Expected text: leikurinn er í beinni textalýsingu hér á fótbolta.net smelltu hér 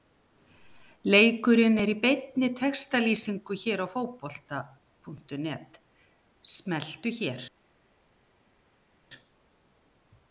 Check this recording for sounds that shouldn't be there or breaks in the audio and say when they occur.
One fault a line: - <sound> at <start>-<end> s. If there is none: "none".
none